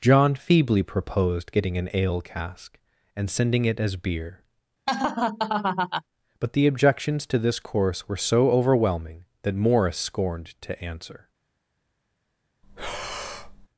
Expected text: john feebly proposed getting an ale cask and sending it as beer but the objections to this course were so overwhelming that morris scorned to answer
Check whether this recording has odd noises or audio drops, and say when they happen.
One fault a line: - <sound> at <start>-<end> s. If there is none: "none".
- laugh at 4.9-6.0 s
- breath at 12.6-13.7 s